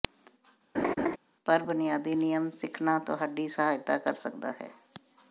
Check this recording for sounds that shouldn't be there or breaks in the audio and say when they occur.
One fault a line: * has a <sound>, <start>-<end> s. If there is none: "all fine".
* has a laugh, 0.7-1.2 s